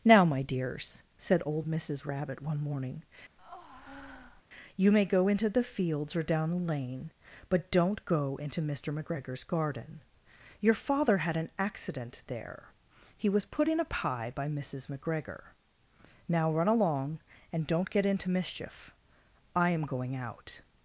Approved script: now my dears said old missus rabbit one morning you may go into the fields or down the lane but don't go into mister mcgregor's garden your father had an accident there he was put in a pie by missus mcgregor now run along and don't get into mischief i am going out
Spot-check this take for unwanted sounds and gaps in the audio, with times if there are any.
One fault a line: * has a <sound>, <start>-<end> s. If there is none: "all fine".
* has a breath, 3.4-4.4 s